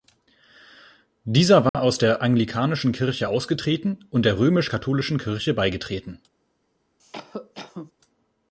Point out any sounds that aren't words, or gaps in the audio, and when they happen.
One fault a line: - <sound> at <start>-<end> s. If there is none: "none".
- dropout at 1.7-1.7 s
- cough at 7.0-7.9 s